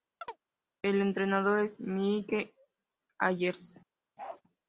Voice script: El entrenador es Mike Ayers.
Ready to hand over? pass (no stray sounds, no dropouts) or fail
fail